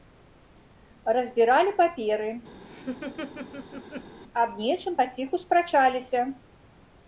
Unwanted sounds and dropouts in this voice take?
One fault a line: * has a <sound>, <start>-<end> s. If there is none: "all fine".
* has a laugh, 2.6-4.2 s